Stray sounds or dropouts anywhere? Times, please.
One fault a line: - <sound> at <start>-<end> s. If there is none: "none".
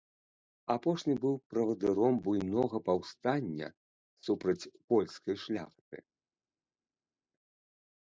none